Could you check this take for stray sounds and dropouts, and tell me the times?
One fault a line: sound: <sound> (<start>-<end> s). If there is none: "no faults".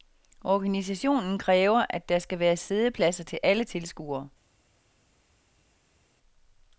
no faults